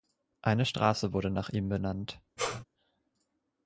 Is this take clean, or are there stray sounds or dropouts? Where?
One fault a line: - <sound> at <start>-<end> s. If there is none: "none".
- sneeze at 2.4-2.6 s